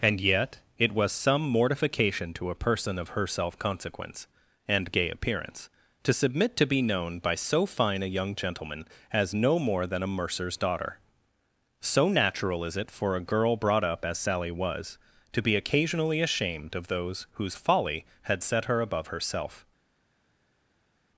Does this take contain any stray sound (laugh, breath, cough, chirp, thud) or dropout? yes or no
no